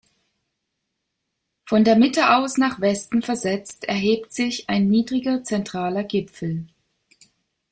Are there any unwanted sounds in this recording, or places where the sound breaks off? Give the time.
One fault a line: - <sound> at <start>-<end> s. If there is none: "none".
none